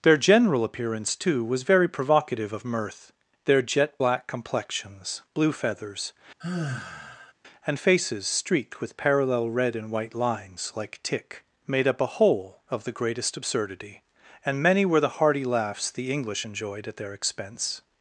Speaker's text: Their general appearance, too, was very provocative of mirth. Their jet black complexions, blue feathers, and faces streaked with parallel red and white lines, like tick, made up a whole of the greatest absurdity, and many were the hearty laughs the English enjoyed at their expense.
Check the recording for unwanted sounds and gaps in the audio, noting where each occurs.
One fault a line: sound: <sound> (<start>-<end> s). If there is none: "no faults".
sound: sigh (6.4-7.3 s)